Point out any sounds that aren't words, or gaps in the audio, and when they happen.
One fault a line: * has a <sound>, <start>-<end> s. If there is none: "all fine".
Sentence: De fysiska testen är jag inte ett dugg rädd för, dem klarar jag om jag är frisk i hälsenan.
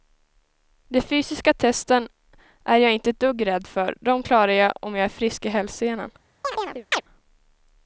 * has a chirp, 6.4-7.0 s